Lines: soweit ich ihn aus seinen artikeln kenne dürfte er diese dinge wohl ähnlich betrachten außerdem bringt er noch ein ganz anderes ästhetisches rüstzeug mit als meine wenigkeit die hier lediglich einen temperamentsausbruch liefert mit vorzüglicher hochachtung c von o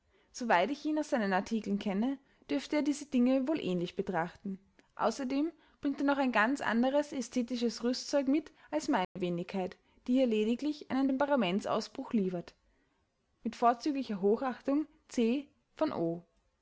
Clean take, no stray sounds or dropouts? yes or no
no